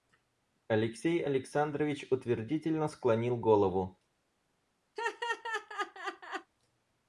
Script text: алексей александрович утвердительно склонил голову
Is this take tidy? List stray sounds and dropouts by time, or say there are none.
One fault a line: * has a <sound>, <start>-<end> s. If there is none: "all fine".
* has a laugh, 5.0-6.5 s